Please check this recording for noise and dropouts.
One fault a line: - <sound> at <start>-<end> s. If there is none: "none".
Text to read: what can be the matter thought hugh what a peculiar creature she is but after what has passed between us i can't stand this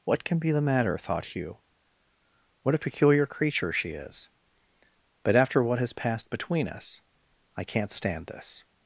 none